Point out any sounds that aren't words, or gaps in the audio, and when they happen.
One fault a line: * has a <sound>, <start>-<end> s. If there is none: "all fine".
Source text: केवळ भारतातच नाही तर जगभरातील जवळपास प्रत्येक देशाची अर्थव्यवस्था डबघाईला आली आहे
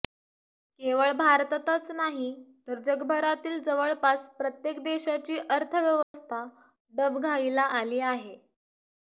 * has a dropout, 6.0-6.1 s